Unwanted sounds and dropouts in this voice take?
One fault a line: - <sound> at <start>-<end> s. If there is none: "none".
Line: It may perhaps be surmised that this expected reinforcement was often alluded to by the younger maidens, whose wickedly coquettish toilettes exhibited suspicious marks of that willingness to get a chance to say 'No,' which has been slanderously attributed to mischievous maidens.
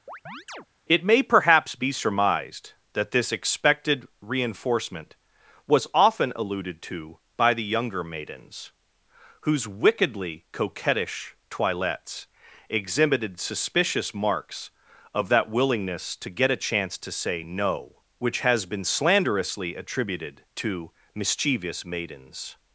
- chirp at 0.1-0.7 s